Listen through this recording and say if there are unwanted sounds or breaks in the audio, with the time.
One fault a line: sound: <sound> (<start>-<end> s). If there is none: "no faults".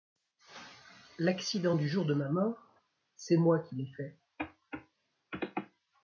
no faults